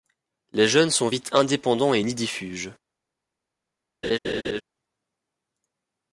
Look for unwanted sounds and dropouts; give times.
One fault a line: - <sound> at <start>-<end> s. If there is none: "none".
- laugh at 4.0-4.6 s